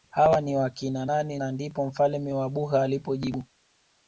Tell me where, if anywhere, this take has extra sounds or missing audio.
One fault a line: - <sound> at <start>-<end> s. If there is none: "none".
none